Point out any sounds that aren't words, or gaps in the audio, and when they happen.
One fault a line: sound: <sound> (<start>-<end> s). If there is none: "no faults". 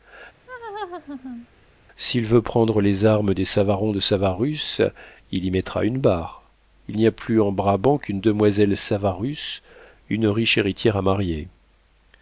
sound: laugh (0.5-1.5 s)